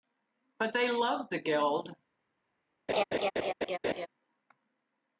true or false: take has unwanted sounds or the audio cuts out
true